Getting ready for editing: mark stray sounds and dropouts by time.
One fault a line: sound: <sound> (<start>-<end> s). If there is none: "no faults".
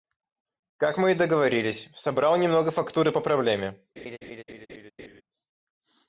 sound: laugh (4.0-5.2 s)